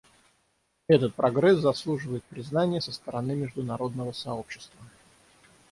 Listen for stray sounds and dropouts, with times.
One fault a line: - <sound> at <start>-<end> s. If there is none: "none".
none